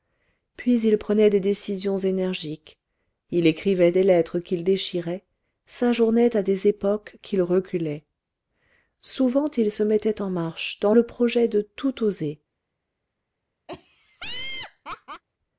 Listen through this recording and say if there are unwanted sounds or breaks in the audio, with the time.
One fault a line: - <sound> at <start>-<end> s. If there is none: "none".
- laugh at 13.7-15.2 s